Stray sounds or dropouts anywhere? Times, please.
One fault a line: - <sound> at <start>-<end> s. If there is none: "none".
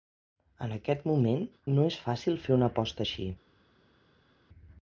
none